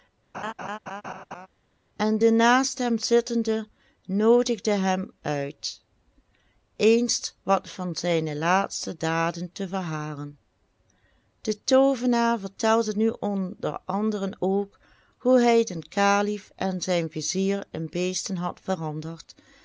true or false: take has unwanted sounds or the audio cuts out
true